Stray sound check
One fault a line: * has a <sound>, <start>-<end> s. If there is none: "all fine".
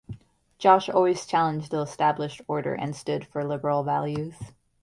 all fine